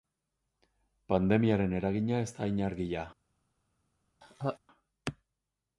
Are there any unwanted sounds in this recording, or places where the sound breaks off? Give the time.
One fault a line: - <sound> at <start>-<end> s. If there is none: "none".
- laugh at 4.2-4.6 s